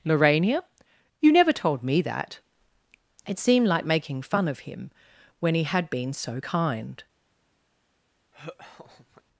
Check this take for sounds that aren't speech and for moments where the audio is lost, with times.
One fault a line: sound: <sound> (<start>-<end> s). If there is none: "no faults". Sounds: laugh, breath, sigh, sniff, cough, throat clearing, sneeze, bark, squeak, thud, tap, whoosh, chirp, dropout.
sound: laugh (8.3-9.2 s)